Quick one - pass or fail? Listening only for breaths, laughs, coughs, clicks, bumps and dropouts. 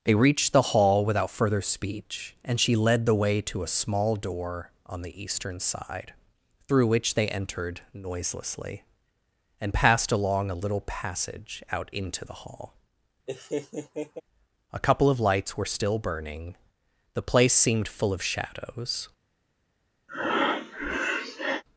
fail